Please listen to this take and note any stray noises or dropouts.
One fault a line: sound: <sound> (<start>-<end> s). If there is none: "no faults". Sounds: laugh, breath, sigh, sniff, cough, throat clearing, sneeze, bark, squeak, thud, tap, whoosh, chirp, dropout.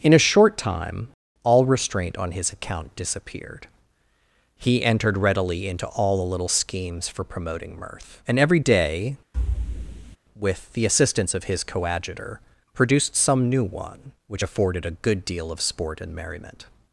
sound: thud (9.3-10.2 s)